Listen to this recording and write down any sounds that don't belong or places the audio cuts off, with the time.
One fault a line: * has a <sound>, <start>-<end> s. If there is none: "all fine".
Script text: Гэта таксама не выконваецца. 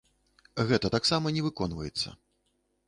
all fine